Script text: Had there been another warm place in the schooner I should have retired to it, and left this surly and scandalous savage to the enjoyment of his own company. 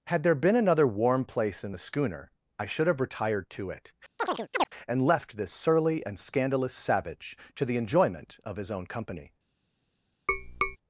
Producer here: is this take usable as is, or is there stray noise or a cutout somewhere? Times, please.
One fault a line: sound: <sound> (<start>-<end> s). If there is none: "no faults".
sound: chirp (4.2-4.7 s)
sound: tap (10.3-10.8 s)